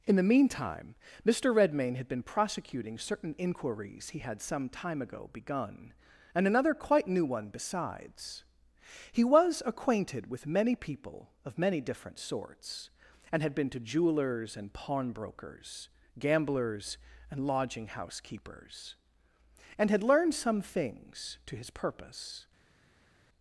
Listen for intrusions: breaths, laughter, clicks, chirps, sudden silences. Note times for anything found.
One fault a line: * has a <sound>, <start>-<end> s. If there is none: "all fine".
all fine